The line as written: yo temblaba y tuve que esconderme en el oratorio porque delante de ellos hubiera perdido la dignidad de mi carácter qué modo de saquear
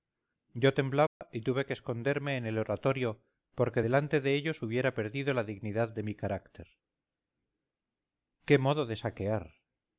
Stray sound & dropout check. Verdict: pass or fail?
fail